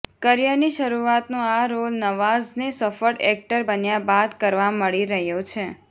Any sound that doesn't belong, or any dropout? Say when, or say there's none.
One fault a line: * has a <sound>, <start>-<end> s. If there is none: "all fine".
all fine